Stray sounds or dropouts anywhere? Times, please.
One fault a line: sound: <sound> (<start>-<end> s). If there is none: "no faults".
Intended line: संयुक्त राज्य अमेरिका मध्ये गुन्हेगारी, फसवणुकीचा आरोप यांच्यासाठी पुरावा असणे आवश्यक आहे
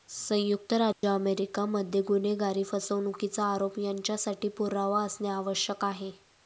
sound: dropout (0.9-1.0 s)